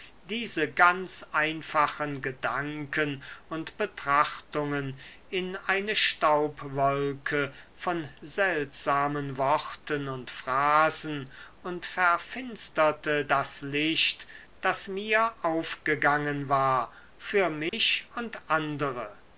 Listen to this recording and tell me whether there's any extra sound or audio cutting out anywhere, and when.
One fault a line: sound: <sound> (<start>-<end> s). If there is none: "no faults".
sound: dropout (17.7-17.7 s)